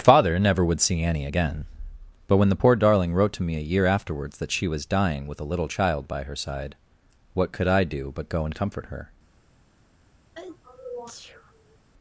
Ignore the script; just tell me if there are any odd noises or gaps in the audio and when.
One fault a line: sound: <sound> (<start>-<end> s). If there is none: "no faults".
sound: sneeze (10.3-11.8 s)